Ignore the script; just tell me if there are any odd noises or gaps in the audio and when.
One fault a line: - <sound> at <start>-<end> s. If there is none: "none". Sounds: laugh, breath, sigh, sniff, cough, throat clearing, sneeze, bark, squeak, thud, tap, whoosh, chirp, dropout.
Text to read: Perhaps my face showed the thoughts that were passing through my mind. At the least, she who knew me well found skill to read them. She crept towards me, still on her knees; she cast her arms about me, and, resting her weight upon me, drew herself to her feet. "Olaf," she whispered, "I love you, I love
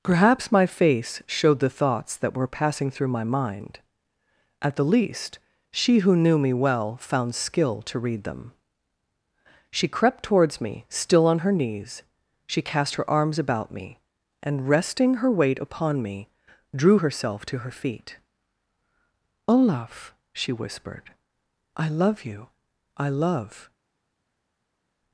none